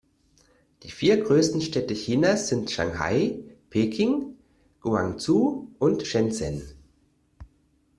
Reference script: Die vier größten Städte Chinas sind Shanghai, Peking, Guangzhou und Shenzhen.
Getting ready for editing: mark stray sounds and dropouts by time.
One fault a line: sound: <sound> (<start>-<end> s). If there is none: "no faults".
no faults